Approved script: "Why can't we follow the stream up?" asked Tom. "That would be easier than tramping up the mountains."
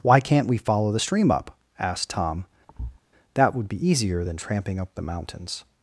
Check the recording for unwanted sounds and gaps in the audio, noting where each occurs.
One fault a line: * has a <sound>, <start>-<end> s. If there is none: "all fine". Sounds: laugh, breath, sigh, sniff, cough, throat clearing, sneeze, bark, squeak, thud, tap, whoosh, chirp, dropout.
* has a thud, 2.7-3.0 s